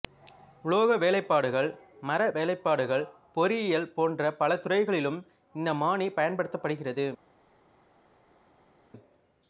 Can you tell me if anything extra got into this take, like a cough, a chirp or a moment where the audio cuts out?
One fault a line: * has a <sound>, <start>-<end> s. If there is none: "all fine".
all fine